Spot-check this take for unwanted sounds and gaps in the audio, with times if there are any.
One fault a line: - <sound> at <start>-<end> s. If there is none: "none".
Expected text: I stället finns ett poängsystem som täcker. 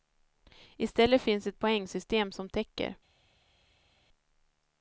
none